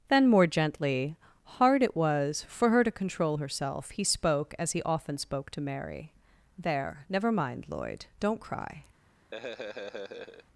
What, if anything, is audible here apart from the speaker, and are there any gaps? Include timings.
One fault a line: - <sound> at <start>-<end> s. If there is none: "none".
- laugh at 9.3-10.5 s